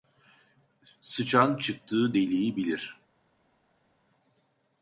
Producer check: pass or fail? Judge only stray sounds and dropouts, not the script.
pass